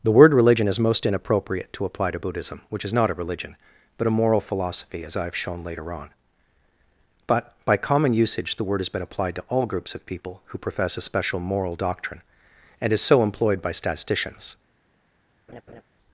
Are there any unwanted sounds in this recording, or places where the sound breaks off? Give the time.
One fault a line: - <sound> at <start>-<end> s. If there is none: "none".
- laugh at 15.5-15.8 s